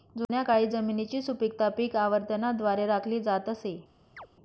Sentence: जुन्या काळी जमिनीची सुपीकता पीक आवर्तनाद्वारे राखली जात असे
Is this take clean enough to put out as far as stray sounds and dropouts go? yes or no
no